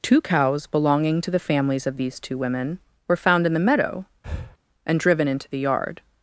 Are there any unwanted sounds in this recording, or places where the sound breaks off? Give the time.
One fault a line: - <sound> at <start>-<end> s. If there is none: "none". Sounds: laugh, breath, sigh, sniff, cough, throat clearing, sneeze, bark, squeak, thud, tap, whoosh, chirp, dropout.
- breath at 4.2-4.6 s